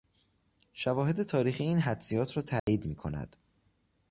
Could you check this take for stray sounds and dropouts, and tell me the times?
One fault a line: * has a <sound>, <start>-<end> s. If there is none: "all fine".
* has a dropout, 2.6-2.7 s